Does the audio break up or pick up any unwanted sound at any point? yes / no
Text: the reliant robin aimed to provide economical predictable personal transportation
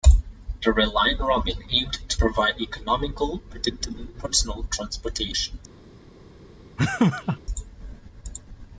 yes